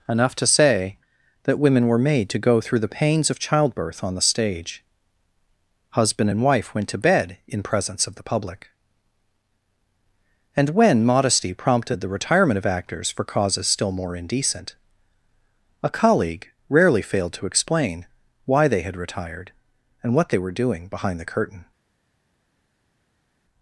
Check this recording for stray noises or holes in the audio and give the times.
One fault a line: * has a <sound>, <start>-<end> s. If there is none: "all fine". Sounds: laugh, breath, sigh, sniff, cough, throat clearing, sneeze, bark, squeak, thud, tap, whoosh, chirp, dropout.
all fine